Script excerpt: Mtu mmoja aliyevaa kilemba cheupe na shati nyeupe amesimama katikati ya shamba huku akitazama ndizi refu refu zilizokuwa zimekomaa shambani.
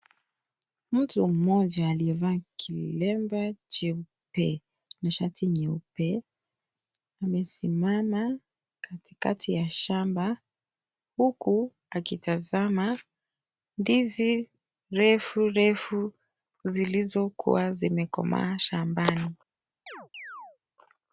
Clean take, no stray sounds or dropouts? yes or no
no